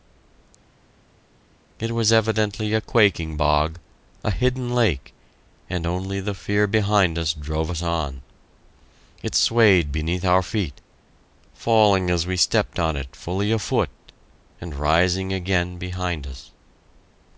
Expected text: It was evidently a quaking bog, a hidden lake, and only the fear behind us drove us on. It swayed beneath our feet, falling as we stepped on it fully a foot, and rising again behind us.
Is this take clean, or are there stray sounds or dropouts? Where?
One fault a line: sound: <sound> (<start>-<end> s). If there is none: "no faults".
no faults